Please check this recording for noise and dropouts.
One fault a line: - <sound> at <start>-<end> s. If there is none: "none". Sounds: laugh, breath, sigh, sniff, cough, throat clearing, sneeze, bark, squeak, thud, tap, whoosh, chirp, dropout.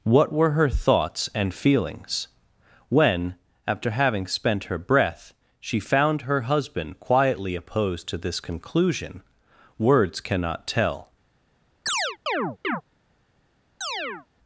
- chirp at 11.9-12.8 s
- chirp at 13.8-14.3 s